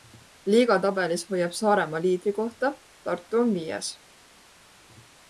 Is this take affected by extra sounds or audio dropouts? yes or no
no